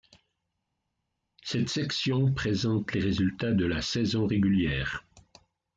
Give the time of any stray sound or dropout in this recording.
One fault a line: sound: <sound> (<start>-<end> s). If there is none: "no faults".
no faults